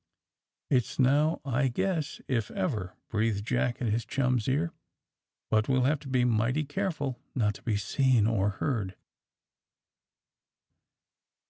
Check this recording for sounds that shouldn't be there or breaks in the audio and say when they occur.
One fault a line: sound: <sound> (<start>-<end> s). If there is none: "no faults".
no faults